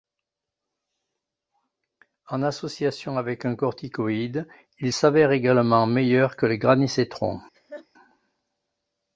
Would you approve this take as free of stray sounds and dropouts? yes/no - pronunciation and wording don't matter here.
no